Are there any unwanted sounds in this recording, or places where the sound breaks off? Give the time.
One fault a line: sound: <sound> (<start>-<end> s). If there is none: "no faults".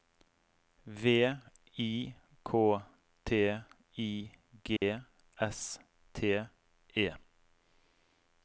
sound: dropout (4.8-4.8 s)